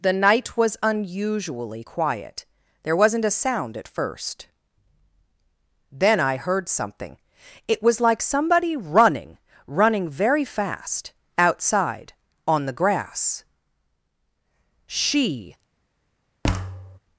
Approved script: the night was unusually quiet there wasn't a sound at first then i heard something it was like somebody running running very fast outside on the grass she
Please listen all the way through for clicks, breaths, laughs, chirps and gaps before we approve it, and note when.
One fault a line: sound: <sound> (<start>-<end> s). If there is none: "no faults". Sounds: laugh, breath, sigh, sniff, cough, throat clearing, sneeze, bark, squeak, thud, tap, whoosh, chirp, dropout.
sound: thud (16.4-17.0 s)